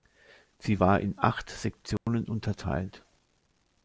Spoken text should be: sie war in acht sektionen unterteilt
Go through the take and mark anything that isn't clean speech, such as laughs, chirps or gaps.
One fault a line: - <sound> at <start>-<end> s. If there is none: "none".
- dropout at 2.0-2.1 s